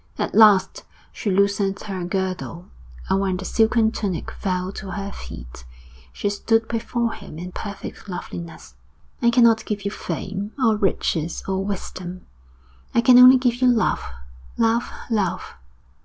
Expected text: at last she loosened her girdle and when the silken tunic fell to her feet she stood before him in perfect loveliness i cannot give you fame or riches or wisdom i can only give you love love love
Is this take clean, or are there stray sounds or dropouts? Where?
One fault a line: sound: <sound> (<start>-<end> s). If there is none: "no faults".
no faults